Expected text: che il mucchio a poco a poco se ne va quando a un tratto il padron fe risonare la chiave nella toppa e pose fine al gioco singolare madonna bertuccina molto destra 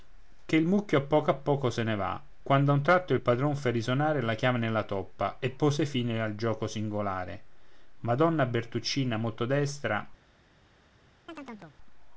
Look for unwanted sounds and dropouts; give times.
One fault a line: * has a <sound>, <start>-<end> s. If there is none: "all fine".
* has a chirp, 11.3-11.8 s